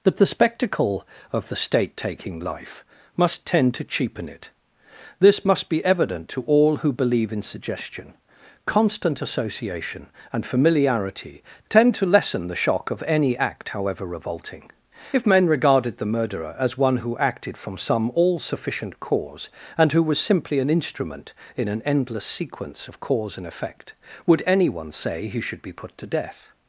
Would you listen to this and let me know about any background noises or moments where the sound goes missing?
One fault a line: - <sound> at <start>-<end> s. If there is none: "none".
none